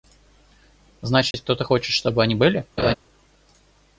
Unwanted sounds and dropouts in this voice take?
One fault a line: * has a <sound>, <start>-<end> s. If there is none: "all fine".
* has a dropout, 1.3-1.3 s
* has a laugh, 2.8-2.9 s